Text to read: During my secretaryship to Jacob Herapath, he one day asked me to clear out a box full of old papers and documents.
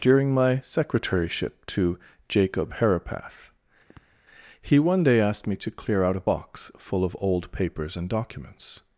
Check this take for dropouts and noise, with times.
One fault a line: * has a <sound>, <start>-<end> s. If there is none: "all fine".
* has a sniff, 3.9-4.2 s